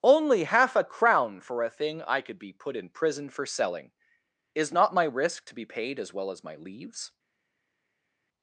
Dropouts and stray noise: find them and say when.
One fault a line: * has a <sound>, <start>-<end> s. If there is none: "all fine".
all fine